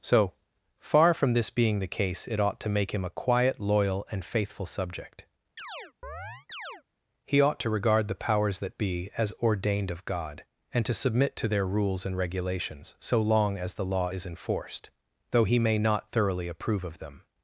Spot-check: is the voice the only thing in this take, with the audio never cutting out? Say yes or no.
no